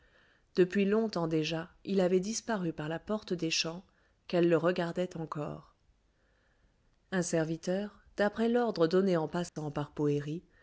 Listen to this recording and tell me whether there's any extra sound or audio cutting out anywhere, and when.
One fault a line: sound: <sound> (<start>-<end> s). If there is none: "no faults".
sound: dropout (9.5-9.6 s)